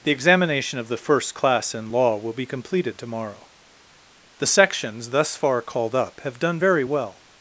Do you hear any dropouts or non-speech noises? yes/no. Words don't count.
no